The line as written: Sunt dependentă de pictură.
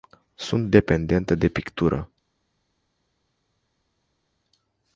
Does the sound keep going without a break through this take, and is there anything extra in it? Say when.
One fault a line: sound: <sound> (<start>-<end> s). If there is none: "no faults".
no faults